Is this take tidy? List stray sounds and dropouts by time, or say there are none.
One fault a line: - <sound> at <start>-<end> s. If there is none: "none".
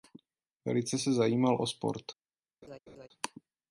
- laugh at 2.6-3.1 s